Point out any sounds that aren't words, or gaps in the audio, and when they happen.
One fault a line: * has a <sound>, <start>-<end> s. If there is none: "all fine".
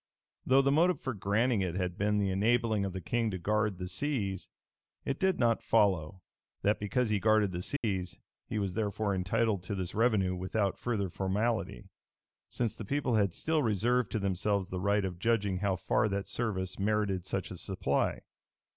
* has a dropout, 7.8-7.8 s